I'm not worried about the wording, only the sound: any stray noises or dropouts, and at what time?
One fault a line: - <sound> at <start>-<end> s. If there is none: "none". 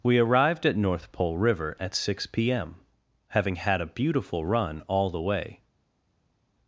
none